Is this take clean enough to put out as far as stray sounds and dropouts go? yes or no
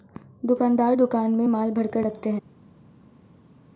yes